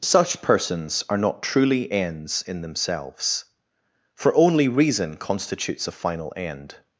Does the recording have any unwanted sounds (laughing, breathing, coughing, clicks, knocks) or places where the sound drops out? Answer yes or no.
no